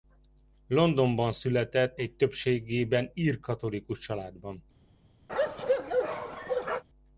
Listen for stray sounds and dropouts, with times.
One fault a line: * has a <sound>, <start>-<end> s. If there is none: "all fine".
* has a bark, 5.3-6.8 s